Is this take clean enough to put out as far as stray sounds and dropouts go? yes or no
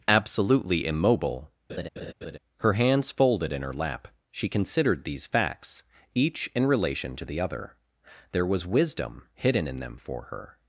no